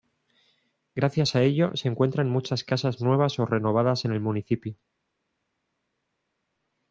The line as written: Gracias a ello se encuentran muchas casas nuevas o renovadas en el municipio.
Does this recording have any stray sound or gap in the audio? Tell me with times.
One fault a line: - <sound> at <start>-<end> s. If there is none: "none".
none